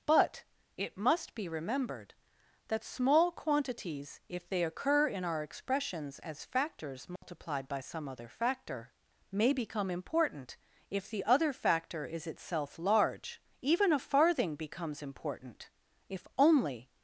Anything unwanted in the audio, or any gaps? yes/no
yes